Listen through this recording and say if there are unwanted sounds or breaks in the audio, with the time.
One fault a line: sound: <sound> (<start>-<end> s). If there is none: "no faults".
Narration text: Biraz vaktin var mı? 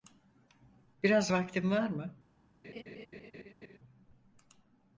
sound: laugh (2.6-3.8 s)